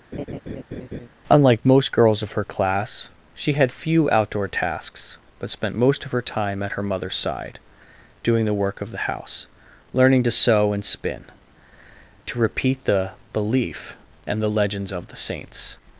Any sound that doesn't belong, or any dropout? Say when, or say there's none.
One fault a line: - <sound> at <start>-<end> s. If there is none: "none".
- laugh at 0.1-1.1 s